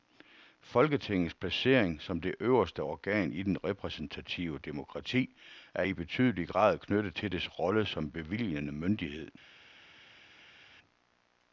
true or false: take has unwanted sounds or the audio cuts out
false